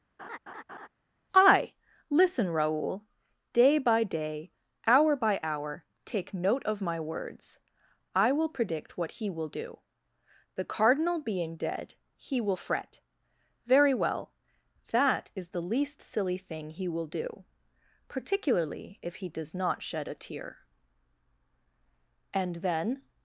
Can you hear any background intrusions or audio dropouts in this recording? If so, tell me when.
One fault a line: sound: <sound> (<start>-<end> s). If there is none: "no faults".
sound: laugh (0.2-0.9 s)